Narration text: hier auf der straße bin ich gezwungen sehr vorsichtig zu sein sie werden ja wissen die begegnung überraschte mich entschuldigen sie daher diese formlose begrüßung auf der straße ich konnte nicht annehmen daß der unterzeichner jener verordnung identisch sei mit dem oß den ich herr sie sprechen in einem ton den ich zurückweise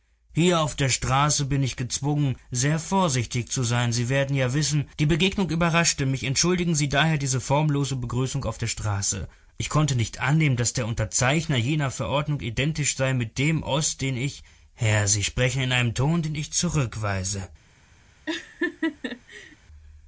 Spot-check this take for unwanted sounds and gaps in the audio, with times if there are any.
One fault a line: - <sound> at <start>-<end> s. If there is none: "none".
- laugh at 18.3-19.6 s